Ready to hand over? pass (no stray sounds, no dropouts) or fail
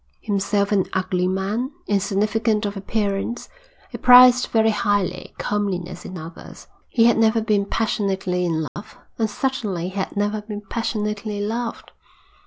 fail